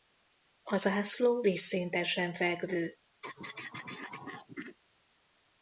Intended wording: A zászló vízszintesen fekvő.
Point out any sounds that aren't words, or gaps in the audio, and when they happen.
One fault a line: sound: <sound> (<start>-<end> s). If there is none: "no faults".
sound: throat clearing (3.2-4.8 s)